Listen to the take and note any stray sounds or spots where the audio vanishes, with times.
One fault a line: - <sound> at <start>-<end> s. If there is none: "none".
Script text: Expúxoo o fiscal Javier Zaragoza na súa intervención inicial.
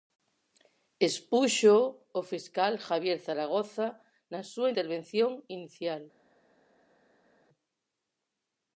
none